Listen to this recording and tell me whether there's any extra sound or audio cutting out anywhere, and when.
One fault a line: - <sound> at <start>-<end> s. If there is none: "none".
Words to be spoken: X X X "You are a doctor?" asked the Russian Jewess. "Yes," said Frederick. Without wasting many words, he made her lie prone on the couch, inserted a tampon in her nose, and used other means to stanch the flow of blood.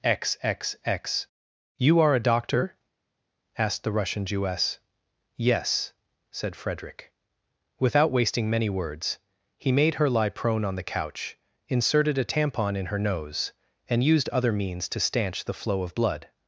none